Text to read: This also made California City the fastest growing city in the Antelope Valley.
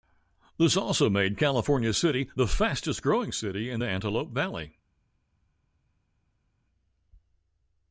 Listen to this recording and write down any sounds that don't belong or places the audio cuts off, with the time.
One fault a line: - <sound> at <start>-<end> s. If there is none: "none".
none